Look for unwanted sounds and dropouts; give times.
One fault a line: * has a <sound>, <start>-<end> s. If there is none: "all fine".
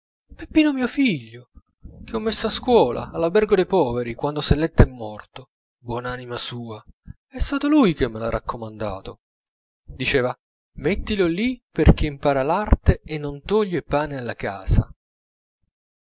all fine